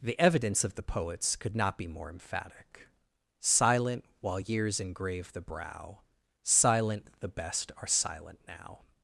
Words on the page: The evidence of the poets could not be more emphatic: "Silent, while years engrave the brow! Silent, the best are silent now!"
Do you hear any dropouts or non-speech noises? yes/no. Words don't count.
no